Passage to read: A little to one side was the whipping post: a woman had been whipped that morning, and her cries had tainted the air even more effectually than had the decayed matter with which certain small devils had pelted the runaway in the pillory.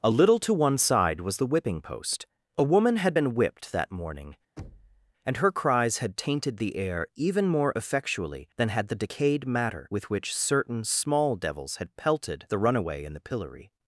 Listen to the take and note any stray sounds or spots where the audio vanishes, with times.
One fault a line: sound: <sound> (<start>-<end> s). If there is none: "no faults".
sound: thud (4.6-5.1 s)